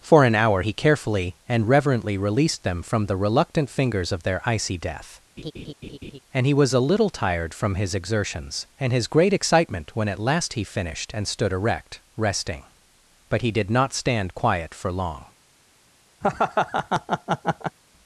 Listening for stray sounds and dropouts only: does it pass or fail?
fail